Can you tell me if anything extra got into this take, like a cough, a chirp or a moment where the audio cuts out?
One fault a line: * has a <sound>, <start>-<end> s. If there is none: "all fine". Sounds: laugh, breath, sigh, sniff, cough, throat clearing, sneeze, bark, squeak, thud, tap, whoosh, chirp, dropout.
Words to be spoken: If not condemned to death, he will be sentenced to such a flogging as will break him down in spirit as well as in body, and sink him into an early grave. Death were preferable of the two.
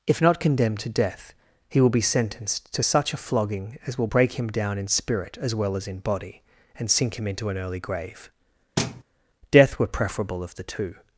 * has a thud, 8.8-9.0 s